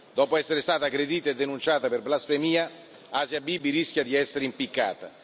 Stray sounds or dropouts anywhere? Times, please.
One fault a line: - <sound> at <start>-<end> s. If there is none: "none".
none